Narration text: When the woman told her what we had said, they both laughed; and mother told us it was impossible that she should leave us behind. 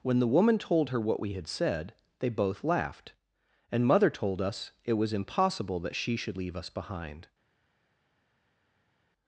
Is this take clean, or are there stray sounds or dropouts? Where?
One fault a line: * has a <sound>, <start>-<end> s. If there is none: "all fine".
all fine